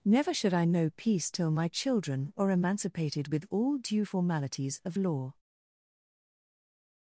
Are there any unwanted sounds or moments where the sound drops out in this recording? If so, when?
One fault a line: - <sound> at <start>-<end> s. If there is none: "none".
none